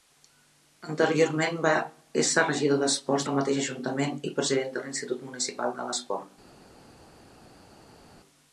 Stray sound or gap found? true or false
false